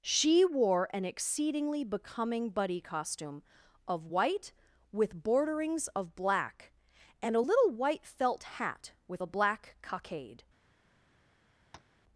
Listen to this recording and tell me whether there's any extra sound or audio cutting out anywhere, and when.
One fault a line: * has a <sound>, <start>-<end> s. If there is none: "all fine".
* has a tap, 11.7-12.0 s